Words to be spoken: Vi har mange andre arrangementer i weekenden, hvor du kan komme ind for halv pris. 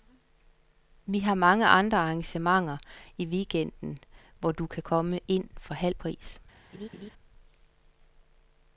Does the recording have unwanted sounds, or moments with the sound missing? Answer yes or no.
yes